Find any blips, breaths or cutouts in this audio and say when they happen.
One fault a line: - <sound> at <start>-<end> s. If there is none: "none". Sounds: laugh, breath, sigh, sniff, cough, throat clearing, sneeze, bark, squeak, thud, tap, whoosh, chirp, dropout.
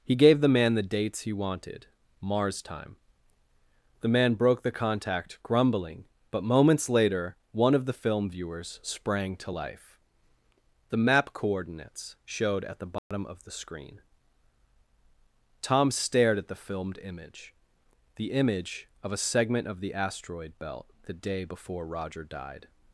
- dropout at 13.0-13.1 s